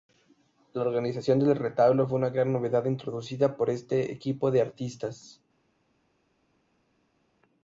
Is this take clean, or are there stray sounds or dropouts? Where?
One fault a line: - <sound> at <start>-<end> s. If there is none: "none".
none